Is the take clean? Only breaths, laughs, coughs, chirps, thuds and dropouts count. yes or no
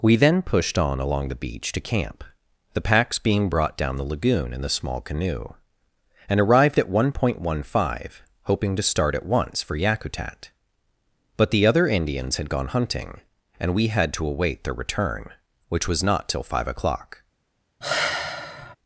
no